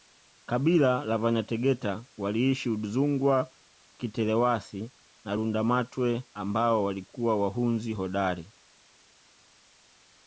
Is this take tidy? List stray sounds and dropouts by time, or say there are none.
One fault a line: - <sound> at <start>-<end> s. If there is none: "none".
none